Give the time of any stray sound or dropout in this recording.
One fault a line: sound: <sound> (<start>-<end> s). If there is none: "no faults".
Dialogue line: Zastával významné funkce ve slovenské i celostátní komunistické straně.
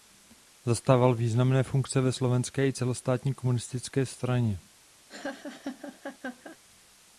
sound: laugh (5.1-6.6 s)